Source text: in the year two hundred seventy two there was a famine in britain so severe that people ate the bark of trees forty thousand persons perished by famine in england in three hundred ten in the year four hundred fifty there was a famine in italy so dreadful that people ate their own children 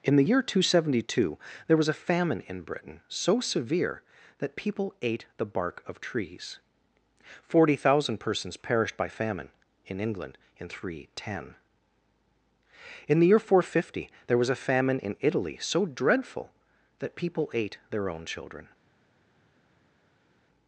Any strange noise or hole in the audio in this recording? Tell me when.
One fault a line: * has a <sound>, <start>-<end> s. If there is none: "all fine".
all fine